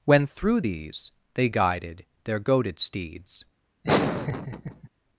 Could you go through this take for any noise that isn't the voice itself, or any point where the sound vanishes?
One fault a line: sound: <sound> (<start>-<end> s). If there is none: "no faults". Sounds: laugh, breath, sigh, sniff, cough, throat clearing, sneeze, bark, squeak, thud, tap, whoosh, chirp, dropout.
sound: laugh (3.8-4.9 s)